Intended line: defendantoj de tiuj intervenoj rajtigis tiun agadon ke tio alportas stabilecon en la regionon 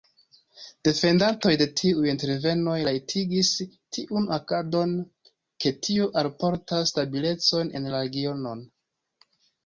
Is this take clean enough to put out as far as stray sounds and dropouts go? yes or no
yes